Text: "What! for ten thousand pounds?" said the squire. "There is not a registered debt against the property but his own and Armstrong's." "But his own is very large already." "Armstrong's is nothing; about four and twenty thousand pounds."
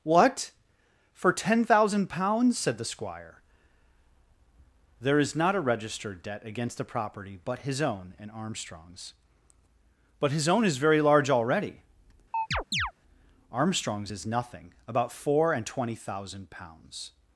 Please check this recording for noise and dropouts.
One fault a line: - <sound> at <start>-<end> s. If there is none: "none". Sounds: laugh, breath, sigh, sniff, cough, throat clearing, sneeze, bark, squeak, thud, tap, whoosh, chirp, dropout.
- chirp at 12.3-12.9 s